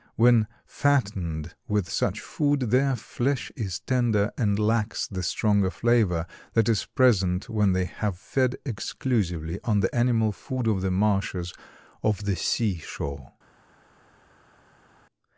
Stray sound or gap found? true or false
false